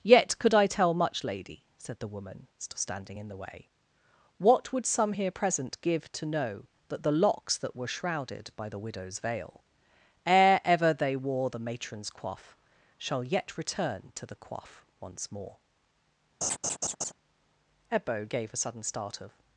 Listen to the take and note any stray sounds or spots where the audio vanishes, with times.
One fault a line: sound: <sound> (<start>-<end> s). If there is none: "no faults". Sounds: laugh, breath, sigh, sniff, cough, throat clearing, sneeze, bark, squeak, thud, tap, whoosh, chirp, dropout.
sound: laugh (16.4-17.1 s)